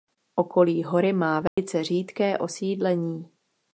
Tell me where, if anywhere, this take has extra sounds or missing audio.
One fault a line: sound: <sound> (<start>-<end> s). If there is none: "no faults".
sound: dropout (1.5-1.6 s)